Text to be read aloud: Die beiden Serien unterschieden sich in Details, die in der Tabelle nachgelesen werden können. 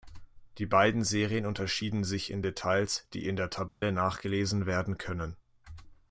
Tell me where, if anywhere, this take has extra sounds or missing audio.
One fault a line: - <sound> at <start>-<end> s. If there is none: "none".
- dropout at 3.7-3.8 s